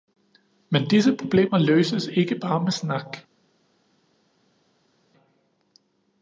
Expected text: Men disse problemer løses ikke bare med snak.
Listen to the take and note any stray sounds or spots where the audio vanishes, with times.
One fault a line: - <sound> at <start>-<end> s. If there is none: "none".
none